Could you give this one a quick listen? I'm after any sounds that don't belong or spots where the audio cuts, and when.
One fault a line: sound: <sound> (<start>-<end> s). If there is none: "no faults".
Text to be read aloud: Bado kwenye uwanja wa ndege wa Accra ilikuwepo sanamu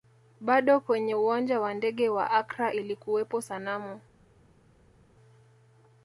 no faults